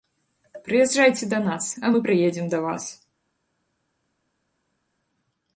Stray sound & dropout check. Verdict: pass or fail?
pass